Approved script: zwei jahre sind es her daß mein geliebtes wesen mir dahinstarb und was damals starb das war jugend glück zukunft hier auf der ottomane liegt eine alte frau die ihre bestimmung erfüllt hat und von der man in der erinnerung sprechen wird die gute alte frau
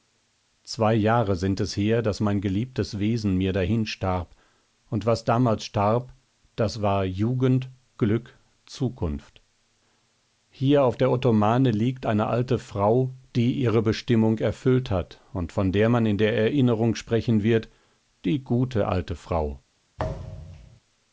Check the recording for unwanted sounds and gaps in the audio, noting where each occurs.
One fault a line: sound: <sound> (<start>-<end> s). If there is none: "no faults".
sound: thud (20.0-20.8 s)